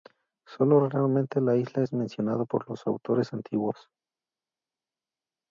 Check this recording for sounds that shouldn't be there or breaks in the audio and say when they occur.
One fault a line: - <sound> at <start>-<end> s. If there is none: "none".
none